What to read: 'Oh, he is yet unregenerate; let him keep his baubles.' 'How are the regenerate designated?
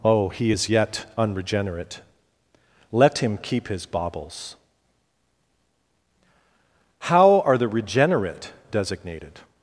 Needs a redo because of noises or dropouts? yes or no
no